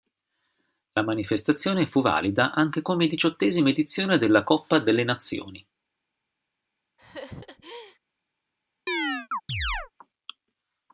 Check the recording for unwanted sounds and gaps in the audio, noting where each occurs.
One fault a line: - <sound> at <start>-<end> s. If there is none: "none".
- laugh at 7.0-8.0 s
- chirp at 8.9-9.9 s